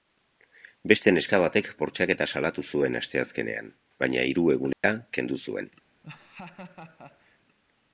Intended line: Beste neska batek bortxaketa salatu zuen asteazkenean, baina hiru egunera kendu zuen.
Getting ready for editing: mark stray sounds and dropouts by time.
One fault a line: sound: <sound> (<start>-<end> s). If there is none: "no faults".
sound: dropout (4.7-4.8 s)
sound: laugh (6.0-7.4 s)